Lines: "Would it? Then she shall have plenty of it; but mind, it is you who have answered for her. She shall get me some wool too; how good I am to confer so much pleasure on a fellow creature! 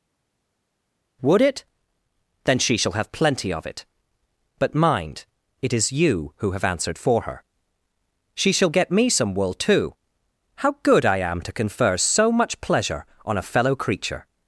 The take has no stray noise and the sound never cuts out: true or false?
true